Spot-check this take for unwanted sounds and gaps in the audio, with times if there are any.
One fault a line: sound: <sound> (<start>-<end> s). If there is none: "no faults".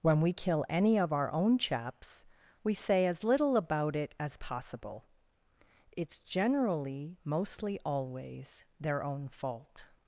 no faults